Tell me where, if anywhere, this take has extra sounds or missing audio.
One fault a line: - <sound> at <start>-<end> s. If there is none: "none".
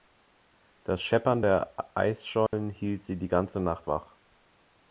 - dropout at 2.5-2.5 s